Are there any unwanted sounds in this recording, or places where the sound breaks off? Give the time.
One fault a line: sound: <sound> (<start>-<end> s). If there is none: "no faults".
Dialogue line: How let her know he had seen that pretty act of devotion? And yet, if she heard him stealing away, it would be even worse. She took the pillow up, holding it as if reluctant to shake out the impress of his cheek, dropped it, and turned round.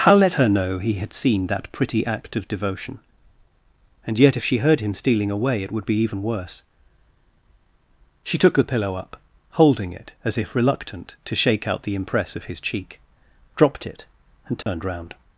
sound: dropout (14.6-14.7 s)